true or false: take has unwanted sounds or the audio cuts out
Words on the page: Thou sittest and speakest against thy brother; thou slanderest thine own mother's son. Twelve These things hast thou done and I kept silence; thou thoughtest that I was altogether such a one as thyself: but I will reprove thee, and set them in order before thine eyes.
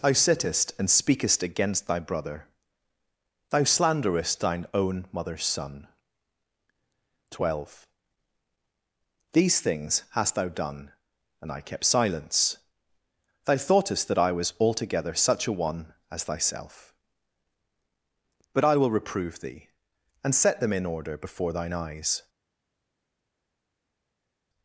false